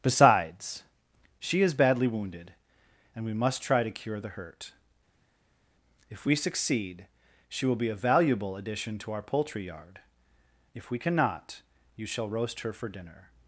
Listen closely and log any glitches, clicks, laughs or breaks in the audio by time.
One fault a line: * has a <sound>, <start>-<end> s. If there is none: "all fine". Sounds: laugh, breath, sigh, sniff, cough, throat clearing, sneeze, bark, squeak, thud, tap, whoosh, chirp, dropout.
all fine